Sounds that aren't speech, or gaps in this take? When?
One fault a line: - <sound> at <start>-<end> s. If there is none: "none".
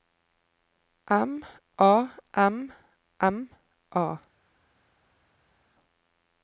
none